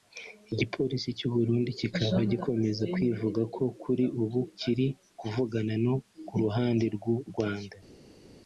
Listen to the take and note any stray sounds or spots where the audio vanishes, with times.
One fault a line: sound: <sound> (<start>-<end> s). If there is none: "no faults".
no faults